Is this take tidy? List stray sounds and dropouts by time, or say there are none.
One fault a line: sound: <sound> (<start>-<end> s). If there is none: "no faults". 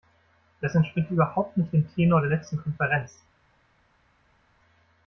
no faults